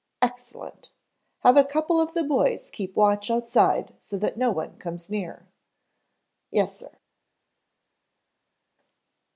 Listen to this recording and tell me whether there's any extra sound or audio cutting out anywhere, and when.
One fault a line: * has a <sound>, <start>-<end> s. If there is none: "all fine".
all fine